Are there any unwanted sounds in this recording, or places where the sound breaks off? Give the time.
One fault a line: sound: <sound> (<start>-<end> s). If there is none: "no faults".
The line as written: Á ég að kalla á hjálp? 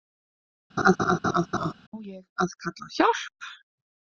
sound: laugh (0.8-1.7 s)